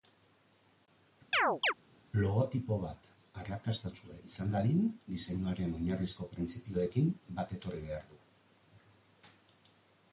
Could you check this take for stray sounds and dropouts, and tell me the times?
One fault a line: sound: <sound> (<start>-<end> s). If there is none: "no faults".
sound: chirp (1.3-1.7 s)